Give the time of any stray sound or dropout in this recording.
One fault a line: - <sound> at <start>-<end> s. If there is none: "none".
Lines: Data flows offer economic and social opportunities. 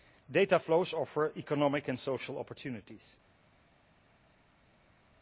none